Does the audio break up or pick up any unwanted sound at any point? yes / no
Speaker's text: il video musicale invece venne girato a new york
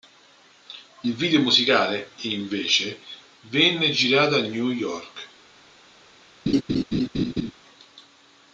yes